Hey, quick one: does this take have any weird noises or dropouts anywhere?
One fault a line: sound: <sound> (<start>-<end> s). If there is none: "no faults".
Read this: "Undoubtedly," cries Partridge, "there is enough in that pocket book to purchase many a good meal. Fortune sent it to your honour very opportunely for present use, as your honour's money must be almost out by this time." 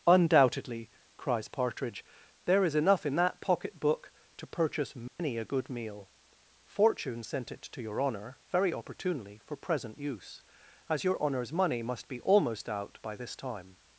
sound: dropout (5.1-5.2 s)